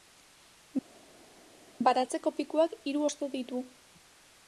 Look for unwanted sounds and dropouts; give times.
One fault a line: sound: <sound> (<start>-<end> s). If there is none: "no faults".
no faults